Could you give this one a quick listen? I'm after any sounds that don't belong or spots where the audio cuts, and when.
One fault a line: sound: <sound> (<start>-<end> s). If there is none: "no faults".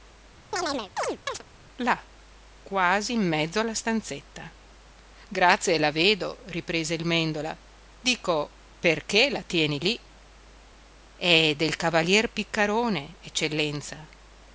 sound: chirp (0.5-1.4 s)